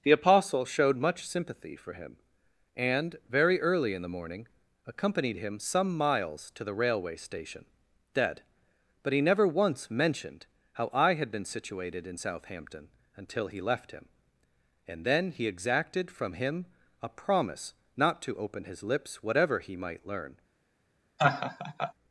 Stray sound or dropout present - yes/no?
yes